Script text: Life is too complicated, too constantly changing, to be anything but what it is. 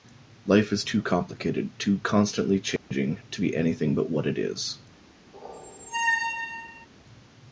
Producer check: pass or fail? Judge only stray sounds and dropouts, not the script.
fail